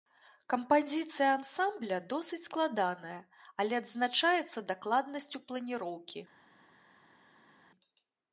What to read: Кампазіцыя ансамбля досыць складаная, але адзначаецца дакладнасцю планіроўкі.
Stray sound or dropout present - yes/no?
no